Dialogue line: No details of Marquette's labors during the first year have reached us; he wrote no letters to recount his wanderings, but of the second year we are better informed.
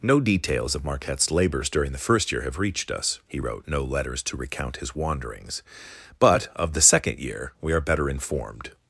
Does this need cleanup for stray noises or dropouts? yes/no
no